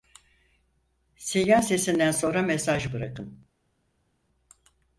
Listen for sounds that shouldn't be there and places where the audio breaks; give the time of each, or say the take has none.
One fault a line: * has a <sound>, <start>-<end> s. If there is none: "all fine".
all fine